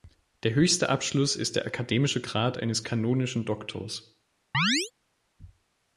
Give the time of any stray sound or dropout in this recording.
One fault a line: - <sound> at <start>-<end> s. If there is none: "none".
- chirp at 4.5-4.9 s